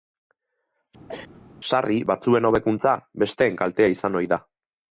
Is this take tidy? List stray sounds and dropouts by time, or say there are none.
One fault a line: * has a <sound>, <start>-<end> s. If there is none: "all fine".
* has a cough, 1.1-1.4 s